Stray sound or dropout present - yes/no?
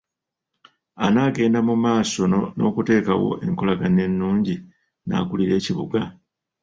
no